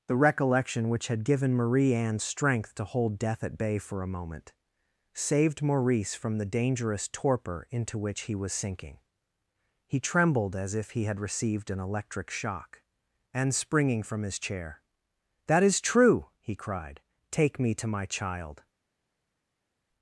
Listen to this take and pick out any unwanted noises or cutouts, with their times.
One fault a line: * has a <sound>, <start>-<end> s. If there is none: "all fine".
all fine